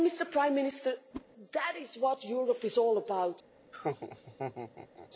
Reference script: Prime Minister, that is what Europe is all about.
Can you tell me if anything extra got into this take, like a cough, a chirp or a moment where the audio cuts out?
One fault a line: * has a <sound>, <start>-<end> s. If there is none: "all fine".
* has a whoosh, 1.1-1.2 s
* has a laugh, 3.7-5.1 s